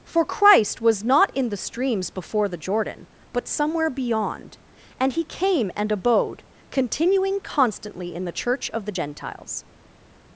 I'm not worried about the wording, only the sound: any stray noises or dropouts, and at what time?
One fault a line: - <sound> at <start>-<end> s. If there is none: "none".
none